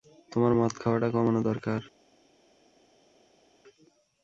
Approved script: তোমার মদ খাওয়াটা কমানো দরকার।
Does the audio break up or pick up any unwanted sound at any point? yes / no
no